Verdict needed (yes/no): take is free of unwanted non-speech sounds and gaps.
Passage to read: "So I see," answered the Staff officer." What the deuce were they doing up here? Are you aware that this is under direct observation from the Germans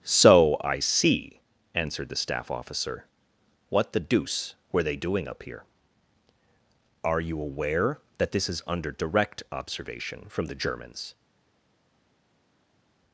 yes